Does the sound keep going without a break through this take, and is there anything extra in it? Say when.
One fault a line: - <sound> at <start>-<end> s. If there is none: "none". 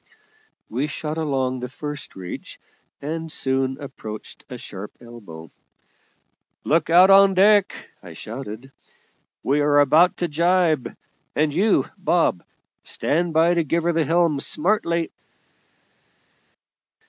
none